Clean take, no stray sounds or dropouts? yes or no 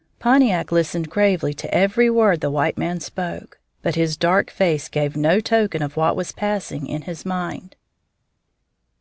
yes